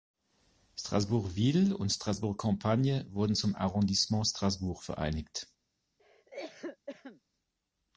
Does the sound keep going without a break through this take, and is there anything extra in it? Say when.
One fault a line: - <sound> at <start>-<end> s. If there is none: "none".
- cough at 6.0-7.2 s